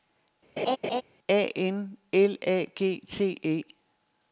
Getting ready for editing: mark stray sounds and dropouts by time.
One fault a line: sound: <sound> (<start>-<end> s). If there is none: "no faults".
sound: laugh (0.6-1.0 s)